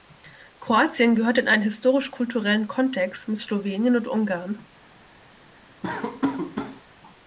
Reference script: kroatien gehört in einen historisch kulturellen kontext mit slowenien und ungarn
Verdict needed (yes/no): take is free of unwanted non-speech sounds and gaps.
no